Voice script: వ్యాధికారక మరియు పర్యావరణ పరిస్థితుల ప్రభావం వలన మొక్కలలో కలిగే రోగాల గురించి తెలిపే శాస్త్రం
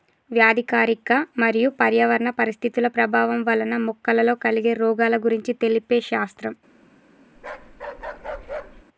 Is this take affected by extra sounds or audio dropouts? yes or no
yes